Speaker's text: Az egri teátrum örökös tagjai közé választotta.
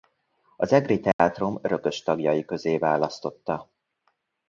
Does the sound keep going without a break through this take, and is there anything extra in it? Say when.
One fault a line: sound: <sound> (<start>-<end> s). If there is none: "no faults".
sound: dropout (1.1-1.2 s)